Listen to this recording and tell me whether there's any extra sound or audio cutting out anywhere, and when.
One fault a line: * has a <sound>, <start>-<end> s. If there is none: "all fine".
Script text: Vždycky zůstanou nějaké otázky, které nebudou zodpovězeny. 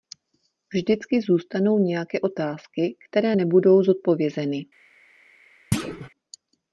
* has a thud, 5.7-6.1 s